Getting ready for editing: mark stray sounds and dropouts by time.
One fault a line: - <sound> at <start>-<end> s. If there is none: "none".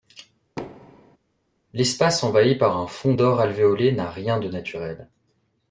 - thud at 0.6-1.2 s